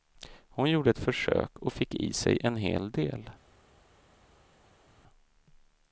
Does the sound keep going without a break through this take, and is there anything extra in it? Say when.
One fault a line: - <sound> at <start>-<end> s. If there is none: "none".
none